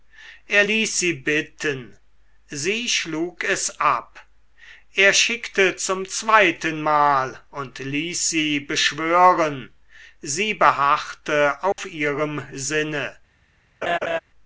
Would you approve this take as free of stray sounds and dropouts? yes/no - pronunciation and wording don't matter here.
no